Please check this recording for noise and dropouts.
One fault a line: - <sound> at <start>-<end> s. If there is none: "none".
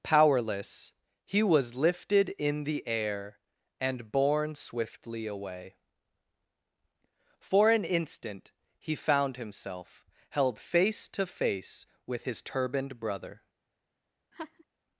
- laugh at 14.3-14.6 s